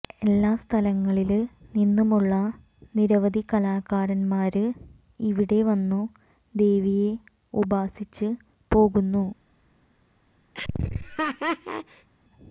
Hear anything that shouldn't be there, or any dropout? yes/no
yes